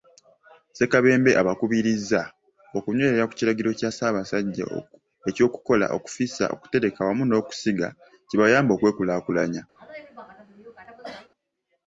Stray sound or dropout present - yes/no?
yes